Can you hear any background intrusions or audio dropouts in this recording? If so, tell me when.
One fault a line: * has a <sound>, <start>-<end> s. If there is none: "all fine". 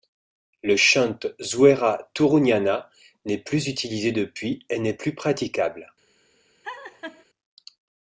* has a laugh, 6.6-7.3 s